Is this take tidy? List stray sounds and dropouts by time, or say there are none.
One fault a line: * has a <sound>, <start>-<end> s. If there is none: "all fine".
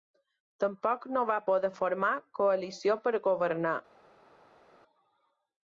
all fine